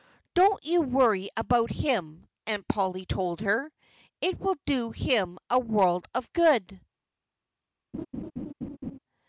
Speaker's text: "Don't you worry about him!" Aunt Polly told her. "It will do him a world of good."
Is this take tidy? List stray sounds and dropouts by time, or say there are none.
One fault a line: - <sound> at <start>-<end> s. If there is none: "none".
- laugh at 7.9-9.0 s